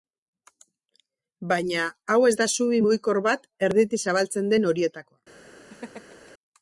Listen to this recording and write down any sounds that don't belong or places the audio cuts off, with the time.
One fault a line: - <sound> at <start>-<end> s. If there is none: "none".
- laugh at 5.7-6.3 s